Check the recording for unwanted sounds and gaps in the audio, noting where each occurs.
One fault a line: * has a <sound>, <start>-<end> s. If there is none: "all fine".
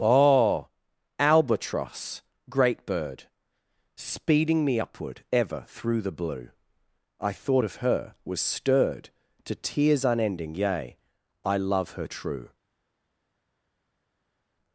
all fine